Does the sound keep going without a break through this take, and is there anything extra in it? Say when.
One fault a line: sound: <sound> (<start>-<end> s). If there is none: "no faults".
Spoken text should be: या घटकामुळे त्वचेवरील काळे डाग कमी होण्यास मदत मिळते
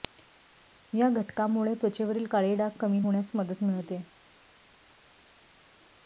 no faults